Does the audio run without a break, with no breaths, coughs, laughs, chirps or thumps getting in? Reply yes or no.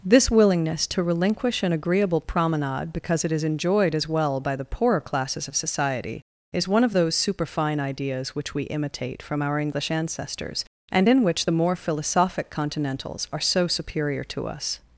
yes